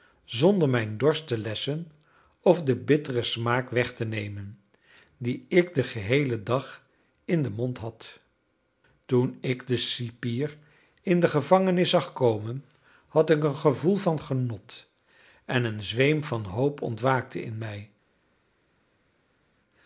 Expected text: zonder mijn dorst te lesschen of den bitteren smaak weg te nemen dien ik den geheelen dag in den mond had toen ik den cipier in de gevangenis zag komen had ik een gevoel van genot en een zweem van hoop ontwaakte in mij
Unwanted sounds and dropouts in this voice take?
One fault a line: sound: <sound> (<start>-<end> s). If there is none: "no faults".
no faults